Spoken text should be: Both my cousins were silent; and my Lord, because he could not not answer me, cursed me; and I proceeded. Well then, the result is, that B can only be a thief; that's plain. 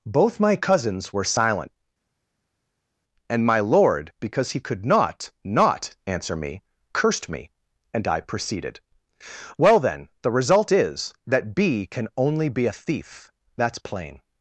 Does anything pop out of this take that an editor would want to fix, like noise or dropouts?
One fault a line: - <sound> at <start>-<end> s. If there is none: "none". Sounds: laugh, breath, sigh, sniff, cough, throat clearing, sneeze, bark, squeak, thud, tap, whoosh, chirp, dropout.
none